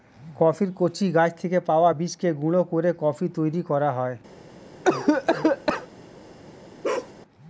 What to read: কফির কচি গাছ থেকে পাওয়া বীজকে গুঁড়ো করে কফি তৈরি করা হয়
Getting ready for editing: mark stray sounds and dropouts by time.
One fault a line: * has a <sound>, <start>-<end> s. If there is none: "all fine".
* has a cough, 4.8-5.9 s
* has a bark, 6.8-7.1 s